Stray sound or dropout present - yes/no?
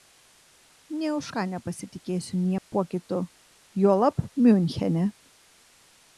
yes